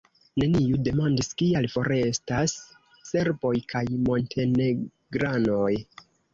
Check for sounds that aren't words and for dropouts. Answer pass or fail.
pass